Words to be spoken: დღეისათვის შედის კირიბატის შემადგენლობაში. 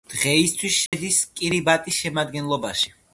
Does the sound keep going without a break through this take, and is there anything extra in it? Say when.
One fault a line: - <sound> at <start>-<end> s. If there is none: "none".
- dropout at 0.9-0.9 s